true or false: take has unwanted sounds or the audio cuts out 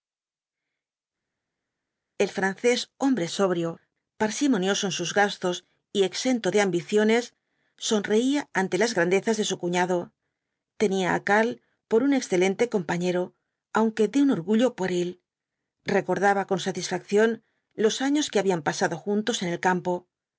false